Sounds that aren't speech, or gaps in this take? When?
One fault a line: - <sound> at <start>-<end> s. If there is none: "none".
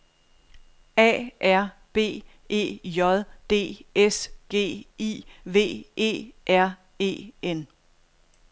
none